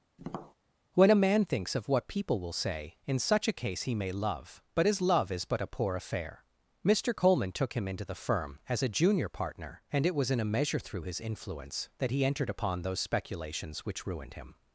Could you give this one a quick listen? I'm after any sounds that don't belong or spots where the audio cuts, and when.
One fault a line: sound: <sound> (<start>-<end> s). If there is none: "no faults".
sound: tap (0.2-0.5 s)